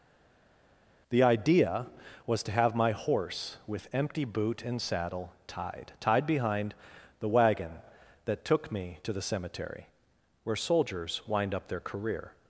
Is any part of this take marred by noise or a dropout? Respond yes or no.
no